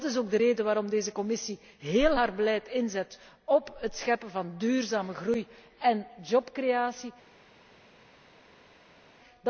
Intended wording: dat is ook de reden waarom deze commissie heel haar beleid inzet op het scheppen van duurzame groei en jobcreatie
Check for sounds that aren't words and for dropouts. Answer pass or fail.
pass